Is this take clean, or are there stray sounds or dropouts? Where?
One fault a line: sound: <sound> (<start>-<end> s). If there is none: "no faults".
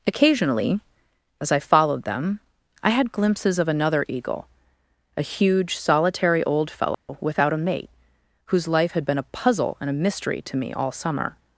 sound: dropout (6.9-7.1 s)